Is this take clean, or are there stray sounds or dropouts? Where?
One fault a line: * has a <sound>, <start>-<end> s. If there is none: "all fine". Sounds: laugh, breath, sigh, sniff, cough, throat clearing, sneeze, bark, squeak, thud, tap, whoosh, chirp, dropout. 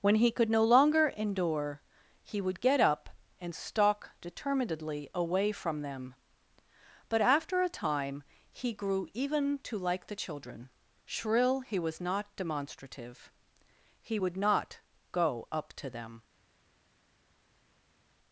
all fine